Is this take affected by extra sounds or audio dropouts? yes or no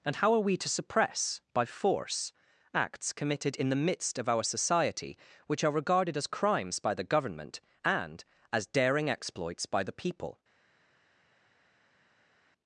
no